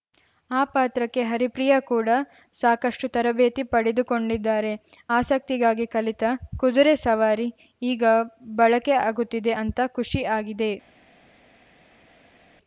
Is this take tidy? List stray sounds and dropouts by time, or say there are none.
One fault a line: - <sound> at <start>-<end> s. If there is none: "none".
none